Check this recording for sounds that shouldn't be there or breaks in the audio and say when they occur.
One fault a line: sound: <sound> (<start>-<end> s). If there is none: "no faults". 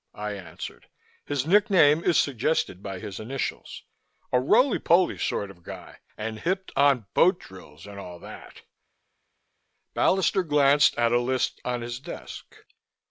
no faults